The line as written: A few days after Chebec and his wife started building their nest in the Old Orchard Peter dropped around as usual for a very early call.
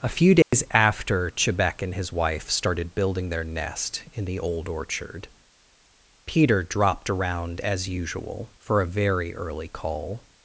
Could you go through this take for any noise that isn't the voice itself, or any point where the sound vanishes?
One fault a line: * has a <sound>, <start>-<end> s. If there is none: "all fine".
* has a dropout, 0.4-0.5 s